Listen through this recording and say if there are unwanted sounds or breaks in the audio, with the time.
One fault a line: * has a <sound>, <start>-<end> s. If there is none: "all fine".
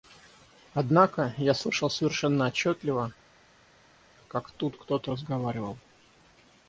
all fine